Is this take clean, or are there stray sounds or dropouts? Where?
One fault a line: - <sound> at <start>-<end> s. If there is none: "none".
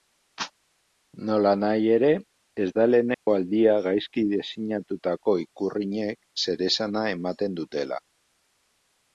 - dropout at 3.1-3.3 s